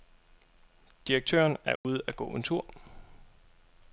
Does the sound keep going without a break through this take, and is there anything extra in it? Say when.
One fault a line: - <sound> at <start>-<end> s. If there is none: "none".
- dropout at 1.8-1.8 s